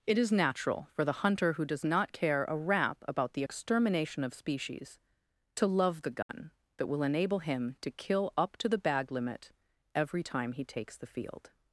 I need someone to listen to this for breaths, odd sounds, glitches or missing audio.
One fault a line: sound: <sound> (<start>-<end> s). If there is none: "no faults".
sound: dropout (6.2-6.3 s)